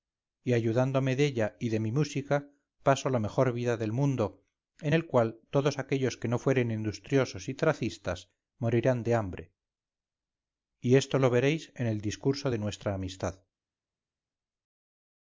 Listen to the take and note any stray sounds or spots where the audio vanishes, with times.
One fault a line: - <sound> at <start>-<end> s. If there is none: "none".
none